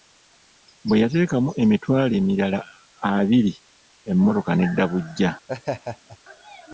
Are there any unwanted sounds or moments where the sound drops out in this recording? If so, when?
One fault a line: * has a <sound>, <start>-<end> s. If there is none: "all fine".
* has a laugh, 5.5-6.2 s